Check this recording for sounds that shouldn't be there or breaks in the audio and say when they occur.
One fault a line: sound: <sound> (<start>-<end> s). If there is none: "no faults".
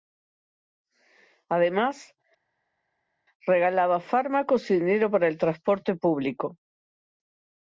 no faults